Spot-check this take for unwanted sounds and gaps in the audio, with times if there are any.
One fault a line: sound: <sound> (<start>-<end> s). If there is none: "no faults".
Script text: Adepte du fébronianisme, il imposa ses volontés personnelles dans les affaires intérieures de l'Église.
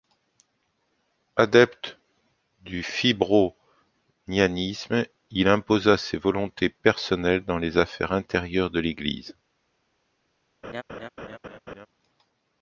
sound: laugh (10.6-11.9 s)